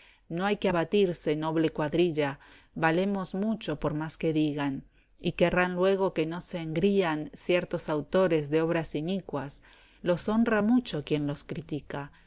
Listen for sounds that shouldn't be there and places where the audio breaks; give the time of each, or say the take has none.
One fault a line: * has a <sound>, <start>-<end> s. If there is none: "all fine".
all fine